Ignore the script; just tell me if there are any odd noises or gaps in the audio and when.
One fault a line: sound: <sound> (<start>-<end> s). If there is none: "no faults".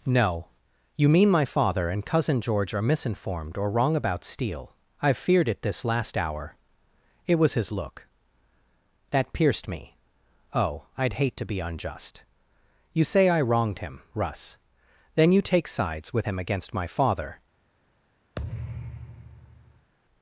sound: thud (18.4-19.9 s)